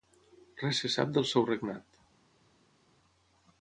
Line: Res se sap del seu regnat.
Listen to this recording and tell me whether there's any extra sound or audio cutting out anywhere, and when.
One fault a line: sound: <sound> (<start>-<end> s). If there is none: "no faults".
no faults